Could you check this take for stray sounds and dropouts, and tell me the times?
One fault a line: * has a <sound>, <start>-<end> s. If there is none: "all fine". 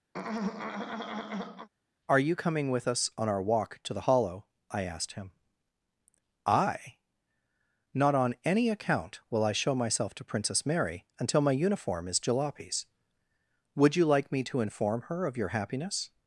* has a throat clearing, 0.1-1.7 s